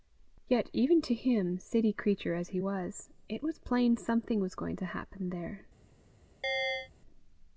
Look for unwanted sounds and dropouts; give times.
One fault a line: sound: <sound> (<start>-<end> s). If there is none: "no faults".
sound: chirp (6.4-6.9 s)